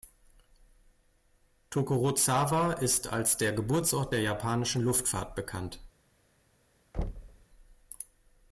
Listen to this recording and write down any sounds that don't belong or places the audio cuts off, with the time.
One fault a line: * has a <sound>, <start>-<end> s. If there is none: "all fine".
* has a thud, 6.9-7.5 s